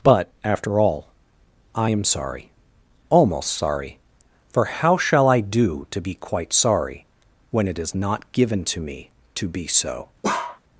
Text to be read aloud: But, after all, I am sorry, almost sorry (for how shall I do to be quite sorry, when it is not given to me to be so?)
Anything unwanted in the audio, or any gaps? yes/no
yes